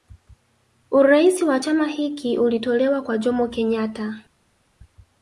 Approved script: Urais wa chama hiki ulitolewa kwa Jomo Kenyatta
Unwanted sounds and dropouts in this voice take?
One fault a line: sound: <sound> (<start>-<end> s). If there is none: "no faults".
no faults